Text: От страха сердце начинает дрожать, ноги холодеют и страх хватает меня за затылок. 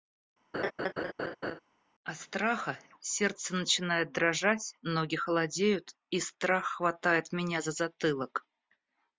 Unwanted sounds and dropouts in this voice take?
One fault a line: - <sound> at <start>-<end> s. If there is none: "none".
- laugh at 0.5-1.6 s